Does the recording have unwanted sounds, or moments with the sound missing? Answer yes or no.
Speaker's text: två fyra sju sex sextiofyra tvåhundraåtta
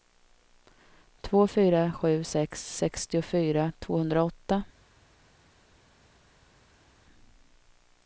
no